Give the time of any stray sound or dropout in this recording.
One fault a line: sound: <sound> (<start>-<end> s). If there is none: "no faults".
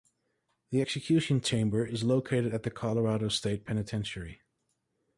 no faults